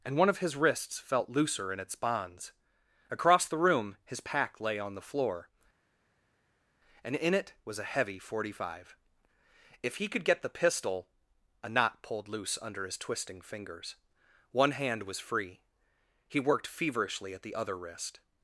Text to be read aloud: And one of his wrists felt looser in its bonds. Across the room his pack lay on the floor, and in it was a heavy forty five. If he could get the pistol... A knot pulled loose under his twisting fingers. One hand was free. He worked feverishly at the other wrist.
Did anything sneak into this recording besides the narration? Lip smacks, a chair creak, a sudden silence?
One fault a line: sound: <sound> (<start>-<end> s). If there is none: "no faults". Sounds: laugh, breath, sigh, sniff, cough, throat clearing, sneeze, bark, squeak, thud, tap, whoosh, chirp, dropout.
no faults